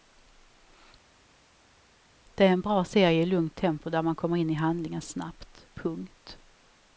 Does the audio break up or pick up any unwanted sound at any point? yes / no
no